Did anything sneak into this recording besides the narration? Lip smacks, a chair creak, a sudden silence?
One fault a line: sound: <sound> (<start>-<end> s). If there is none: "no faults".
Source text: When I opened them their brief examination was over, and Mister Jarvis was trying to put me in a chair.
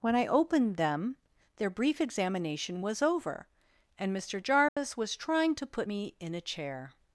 sound: dropout (4.7-4.8 s)